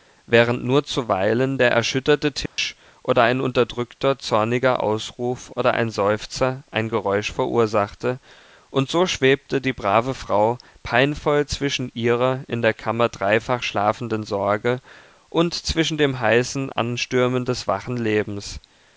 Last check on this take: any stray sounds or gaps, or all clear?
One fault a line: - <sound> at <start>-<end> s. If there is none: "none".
- dropout at 2.5-2.6 s